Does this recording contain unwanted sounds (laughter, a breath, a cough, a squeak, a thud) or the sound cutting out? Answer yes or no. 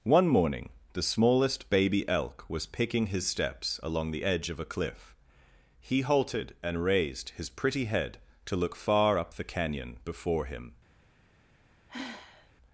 yes